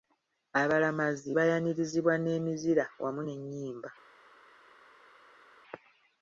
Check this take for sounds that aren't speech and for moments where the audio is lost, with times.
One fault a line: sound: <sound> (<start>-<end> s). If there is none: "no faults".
no faults